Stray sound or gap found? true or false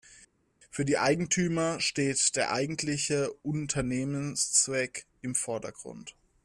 false